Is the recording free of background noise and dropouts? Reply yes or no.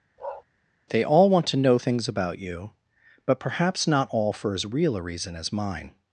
no